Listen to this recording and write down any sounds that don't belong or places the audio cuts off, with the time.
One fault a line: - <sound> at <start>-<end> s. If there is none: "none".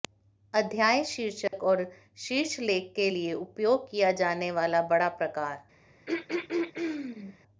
- dropout at 1.5-1.5 s
- throat clearing at 6.1-7.4 s